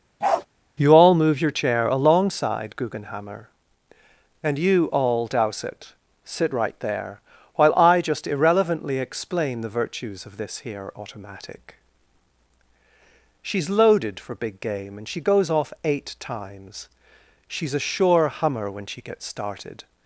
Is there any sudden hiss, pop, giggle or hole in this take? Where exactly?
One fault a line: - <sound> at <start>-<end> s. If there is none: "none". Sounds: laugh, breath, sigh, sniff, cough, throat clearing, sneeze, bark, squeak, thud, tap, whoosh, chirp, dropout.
- bark at 0.2-0.5 s